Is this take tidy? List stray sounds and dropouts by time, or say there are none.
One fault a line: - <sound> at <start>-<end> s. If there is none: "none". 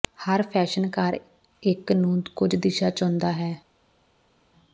none